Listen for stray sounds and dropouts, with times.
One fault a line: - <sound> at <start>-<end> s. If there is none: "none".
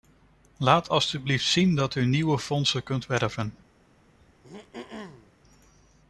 - throat clearing at 4.2-5.3 s